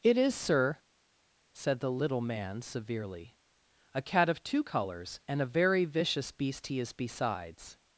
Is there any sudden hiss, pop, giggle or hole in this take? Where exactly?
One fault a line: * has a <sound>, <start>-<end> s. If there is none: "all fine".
all fine